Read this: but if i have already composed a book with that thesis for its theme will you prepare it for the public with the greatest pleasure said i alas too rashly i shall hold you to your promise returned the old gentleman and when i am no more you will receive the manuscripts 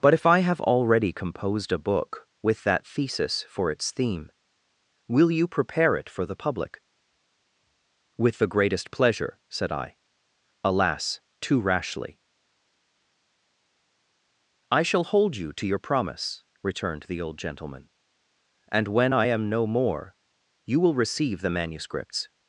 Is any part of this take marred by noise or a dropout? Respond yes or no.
no